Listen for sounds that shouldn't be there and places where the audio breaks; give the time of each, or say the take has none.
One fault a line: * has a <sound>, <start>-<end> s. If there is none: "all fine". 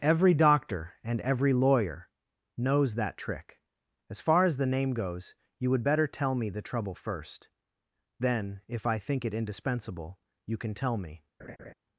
* has a laugh, 11.4-11.7 s